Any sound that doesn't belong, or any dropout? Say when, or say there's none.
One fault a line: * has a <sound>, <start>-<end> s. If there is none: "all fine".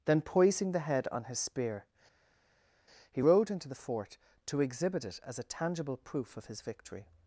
all fine